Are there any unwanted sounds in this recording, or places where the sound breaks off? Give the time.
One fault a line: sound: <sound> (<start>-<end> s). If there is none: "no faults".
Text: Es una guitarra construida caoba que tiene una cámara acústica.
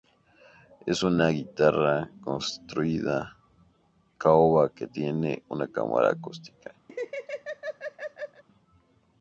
sound: laugh (6.9-8.4 s)